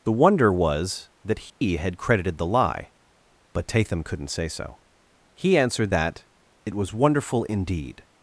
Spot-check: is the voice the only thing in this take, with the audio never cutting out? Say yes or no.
no